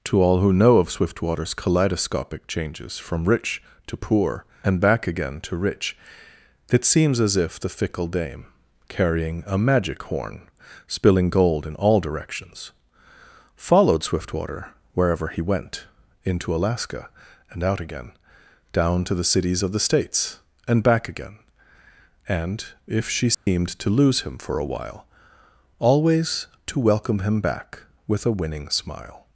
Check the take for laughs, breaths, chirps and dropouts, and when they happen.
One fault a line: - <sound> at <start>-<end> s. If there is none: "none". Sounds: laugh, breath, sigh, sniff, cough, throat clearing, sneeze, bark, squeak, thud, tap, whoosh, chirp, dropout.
- dropout at 23.3-23.5 s